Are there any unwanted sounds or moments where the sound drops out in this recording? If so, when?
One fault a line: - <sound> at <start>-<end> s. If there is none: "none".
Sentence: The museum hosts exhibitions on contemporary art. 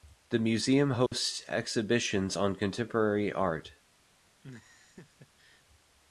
- dropout at 1.1-1.1 s
- laugh at 4.4-5.6 s